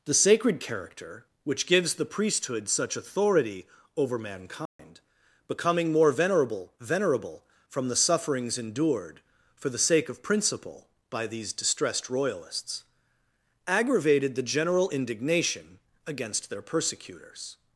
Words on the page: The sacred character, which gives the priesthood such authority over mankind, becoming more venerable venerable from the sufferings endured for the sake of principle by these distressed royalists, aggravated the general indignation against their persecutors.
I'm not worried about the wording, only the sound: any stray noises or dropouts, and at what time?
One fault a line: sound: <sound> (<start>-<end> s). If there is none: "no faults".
sound: dropout (4.7-4.8 s)